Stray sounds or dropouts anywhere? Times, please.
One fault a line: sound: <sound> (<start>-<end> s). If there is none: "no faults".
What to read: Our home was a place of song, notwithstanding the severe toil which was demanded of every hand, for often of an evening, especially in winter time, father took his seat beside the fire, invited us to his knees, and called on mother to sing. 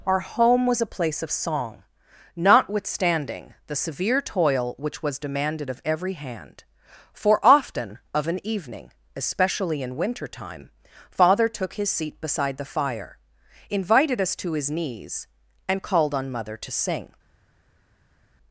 no faults